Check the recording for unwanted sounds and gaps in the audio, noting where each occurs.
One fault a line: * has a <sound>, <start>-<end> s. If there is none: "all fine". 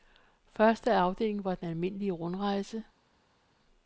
all fine